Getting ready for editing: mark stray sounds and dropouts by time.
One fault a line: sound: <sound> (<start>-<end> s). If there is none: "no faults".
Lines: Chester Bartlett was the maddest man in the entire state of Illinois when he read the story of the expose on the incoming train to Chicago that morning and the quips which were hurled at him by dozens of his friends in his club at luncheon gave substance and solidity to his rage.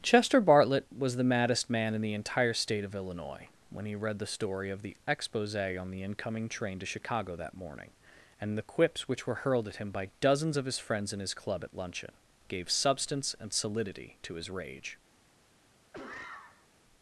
sound: cough (15.9-16.7 s)